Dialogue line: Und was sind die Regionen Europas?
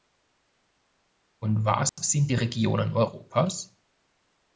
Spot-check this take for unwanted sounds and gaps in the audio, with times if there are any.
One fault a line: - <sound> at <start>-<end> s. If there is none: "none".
- dropout at 1.9-2.0 s